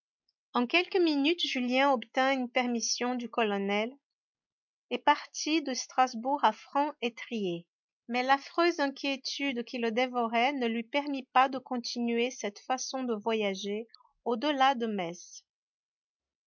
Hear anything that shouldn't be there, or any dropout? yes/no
no